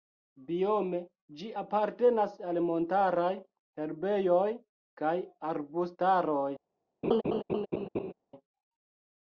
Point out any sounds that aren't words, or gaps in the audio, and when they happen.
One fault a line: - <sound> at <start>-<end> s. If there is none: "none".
- laugh at 7.0-8.1 s